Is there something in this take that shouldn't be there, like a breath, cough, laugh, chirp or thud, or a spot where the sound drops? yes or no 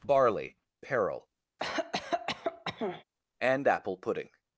yes